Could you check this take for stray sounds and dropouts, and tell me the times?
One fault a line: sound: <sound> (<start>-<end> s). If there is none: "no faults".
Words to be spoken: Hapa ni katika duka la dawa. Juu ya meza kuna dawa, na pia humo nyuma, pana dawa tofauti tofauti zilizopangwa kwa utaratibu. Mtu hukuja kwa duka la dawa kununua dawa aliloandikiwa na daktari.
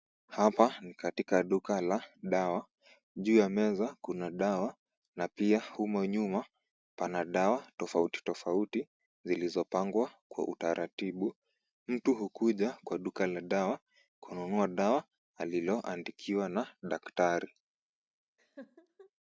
sound: laugh (18.4-19.1 s)